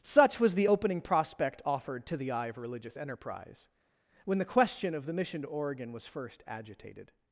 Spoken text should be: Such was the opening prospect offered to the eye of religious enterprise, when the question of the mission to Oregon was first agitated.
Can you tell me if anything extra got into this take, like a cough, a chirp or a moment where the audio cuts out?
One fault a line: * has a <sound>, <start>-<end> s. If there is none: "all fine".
all fine